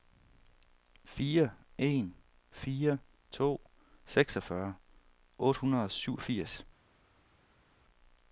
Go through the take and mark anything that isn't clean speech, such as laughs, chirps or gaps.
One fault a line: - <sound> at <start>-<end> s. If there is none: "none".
none